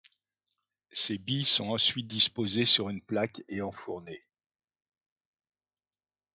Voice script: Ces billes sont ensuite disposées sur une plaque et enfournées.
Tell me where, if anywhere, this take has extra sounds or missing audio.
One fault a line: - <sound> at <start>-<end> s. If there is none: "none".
none